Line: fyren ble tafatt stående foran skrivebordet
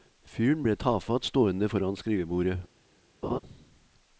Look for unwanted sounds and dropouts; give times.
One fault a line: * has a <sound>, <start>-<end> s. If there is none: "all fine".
* has a laugh, 3.2-3.4 s